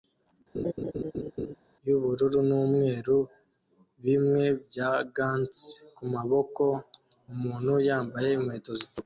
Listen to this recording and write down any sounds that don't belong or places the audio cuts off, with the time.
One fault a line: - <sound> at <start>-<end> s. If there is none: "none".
- laugh at 0.5-1.6 s